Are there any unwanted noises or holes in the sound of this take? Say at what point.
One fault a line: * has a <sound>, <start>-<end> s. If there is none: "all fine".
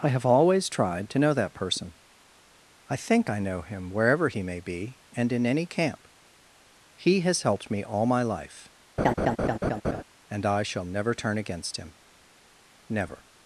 * has a laugh, 9.0-10.0 s